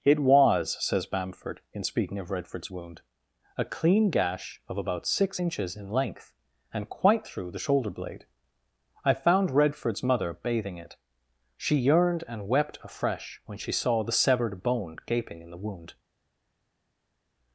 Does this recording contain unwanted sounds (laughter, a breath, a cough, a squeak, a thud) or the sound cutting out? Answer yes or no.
no